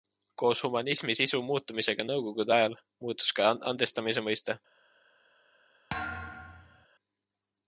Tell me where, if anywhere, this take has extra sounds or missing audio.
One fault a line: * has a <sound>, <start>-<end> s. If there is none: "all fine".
* has a thud, 5.9-6.9 s